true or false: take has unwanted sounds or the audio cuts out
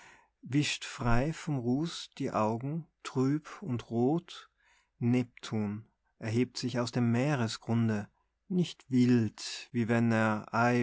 false